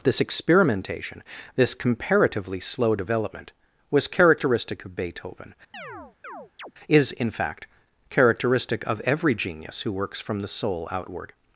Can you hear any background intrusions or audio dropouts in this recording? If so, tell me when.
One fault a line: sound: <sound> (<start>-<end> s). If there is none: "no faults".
sound: chirp (5.7-6.7 s)